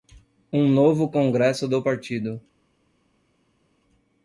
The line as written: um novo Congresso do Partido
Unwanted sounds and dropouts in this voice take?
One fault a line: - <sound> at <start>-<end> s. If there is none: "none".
none